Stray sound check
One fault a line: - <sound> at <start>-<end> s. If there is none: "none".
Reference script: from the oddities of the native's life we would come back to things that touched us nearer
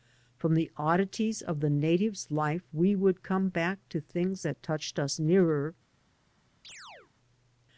- chirp at 6.6-7.1 s